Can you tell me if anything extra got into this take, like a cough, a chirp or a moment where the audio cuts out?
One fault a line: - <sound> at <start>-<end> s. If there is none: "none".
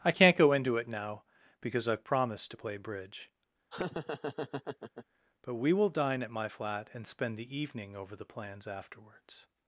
- laugh at 3.7-5.1 s